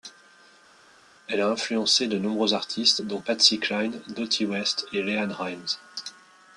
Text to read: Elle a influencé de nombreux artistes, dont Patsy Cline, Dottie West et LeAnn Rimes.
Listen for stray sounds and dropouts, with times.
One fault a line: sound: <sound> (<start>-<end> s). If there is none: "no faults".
no faults